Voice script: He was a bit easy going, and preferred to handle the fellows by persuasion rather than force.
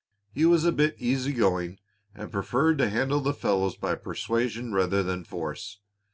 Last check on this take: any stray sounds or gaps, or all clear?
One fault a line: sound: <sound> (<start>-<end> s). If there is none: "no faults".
no faults